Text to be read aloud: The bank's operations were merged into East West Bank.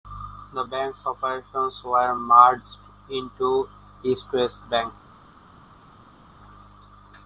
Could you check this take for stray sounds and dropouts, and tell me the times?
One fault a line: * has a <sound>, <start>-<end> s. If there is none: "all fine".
all fine